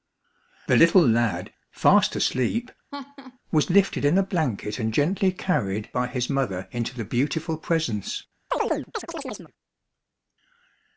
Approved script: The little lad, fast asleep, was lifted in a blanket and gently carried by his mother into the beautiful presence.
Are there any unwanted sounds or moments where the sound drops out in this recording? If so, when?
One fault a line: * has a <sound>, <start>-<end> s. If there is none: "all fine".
* has a laugh, 2.9-3.4 s
* has a chirp, 8.5-9.5 s